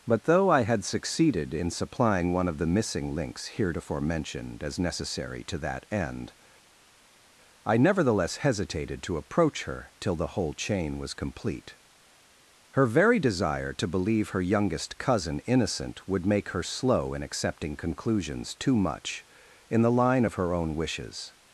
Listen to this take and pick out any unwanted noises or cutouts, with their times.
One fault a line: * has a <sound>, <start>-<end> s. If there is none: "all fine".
all fine